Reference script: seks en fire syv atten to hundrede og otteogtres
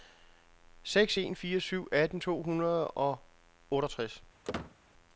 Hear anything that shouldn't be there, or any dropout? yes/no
yes